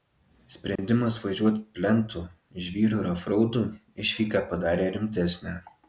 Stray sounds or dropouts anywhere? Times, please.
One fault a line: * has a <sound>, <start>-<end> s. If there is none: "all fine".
* has a dropout, 0.8-0.8 s